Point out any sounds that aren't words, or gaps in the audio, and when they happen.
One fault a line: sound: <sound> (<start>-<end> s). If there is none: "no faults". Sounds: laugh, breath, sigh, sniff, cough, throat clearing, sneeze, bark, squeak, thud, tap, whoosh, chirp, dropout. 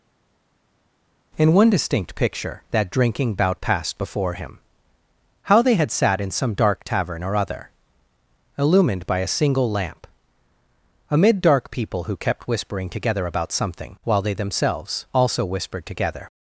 no faults